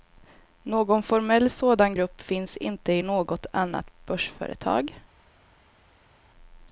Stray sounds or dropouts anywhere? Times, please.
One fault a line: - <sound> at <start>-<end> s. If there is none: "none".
none